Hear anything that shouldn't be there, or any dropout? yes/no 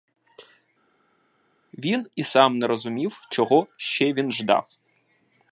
no